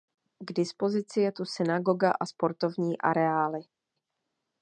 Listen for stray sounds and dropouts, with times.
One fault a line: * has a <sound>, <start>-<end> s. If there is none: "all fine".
all fine